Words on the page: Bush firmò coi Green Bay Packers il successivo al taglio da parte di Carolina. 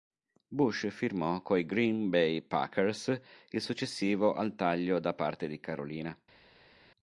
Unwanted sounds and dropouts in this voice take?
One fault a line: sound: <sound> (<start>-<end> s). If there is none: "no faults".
no faults